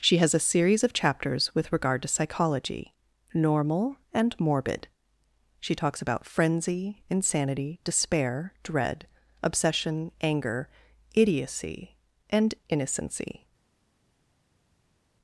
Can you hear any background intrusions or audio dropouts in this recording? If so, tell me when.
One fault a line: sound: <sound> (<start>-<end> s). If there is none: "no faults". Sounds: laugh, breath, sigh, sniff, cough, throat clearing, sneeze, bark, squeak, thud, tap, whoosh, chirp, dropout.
no faults